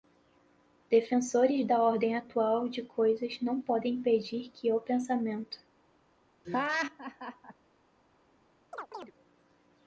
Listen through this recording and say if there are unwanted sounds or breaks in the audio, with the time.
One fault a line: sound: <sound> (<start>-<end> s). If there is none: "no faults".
sound: laugh (6.4-7.5 s)
sound: chirp (8.7-9.1 s)